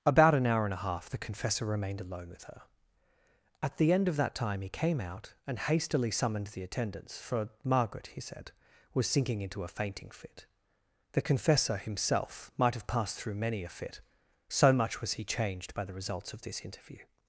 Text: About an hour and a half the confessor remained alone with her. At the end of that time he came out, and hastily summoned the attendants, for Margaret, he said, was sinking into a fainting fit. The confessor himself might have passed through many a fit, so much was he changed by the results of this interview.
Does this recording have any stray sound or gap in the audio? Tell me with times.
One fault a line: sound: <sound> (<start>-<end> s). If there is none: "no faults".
no faults